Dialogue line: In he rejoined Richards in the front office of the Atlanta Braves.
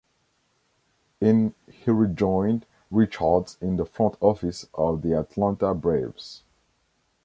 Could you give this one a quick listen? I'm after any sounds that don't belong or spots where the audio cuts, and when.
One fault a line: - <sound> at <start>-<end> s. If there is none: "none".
none